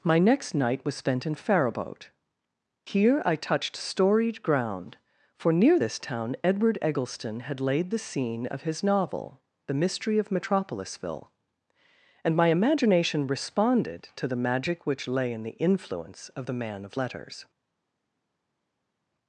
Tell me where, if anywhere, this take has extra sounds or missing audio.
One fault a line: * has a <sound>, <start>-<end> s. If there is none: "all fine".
all fine